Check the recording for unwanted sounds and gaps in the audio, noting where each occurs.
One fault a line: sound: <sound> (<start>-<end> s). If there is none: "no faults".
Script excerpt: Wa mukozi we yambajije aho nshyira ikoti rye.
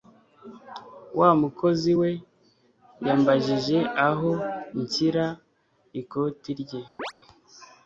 sound: chirp (7.0-7.1 s)